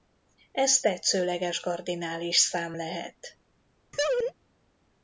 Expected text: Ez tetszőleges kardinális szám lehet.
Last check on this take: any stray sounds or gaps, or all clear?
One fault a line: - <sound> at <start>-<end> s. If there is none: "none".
- laugh at 3.9-4.3 s